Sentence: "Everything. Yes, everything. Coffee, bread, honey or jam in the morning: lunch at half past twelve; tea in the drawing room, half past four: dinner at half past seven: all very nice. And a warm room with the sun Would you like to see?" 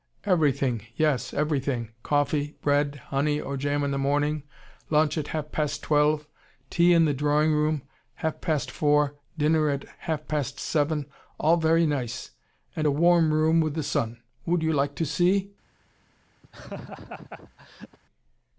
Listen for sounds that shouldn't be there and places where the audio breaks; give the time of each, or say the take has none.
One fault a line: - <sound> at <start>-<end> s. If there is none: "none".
- laugh at 16.4-18.0 s